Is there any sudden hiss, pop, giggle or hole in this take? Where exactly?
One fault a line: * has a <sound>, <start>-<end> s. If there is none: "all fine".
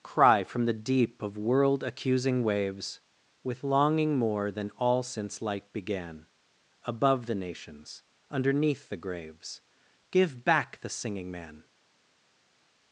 all fine